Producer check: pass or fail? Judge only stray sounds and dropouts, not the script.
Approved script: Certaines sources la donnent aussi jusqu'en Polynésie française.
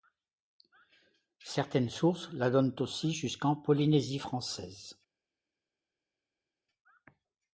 pass